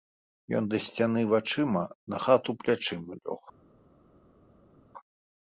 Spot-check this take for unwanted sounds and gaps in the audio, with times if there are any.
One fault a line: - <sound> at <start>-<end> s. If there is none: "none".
none